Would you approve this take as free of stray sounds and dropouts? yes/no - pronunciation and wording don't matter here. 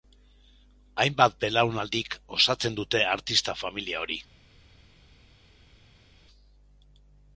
yes